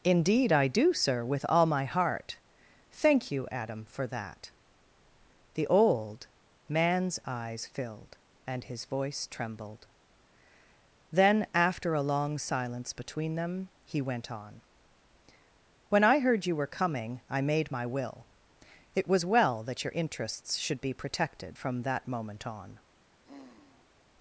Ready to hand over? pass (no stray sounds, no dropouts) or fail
fail